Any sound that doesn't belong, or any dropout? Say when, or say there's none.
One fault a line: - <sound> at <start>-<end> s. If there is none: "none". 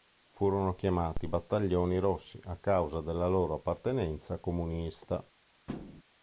- thud at 5.7-6.0 s